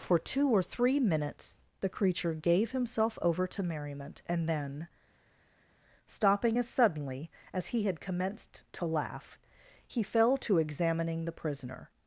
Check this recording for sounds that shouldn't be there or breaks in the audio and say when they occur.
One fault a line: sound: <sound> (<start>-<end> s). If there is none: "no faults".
no faults